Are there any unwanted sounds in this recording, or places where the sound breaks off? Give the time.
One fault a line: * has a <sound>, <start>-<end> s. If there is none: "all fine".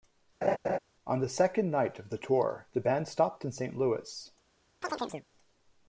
* has a laugh, 0.4-0.8 s
* has a chirp, 4.8-5.3 s